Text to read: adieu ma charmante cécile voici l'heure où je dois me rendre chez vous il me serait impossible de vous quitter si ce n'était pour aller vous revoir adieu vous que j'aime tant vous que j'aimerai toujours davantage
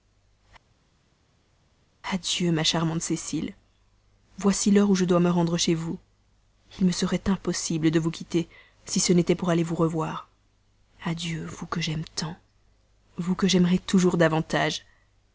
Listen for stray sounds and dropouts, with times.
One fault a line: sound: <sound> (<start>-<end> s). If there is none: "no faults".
no faults